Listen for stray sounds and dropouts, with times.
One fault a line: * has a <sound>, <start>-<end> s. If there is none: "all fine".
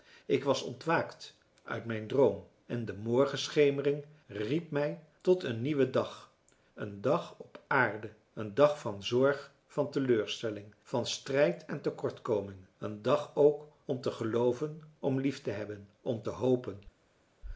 all fine